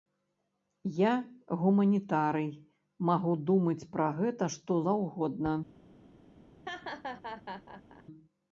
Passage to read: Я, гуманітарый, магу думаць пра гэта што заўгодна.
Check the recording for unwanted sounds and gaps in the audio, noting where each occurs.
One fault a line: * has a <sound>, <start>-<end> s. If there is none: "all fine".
* has a laugh, 6.7-8.0 s